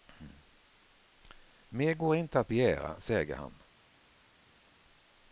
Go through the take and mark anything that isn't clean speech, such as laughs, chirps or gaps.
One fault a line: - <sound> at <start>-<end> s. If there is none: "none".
none